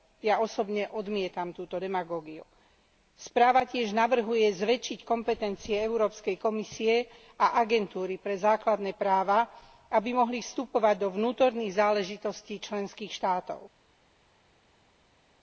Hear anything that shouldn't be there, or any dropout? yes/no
no